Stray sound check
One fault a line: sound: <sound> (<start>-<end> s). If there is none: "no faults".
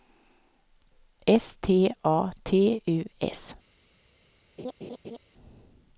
sound: laugh (4.6-5.2 s)